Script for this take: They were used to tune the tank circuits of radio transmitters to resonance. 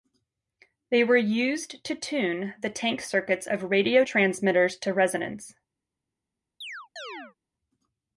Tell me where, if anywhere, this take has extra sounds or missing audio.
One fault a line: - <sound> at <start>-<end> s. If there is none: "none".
- chirp at 6.6-7.4 s